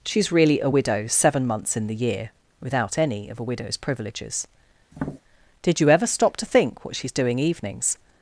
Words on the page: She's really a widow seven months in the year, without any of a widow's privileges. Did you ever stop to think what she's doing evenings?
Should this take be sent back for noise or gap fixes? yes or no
yes